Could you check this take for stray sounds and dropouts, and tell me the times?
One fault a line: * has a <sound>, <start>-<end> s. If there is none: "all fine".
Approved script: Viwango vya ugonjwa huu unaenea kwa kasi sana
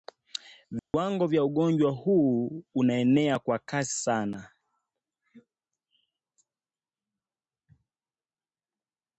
* has a dropout, 0.8-0.9 s